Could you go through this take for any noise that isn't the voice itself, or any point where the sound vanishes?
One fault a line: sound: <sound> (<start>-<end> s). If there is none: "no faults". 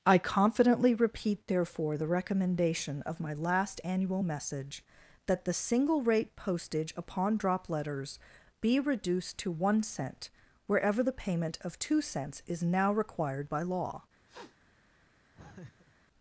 sound: sniff (14.3-14.6 s)
sound: laugh (15.4-16.0 s)